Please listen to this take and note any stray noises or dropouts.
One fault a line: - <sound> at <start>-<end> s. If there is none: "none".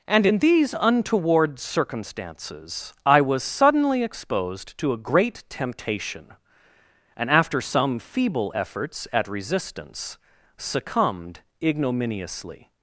none